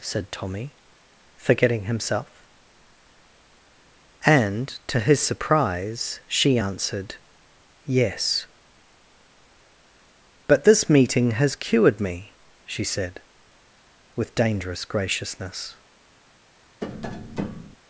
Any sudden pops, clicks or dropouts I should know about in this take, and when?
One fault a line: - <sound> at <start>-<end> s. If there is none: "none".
- tap at 16.8-17.8 s